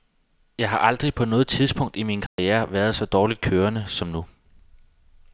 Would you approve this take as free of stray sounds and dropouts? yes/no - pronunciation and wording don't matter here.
no